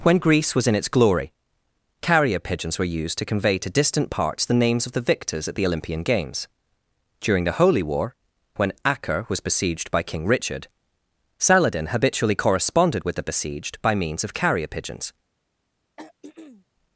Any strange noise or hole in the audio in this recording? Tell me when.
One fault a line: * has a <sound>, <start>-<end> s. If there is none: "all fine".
* has a throat clearing, 16.0-16.7 s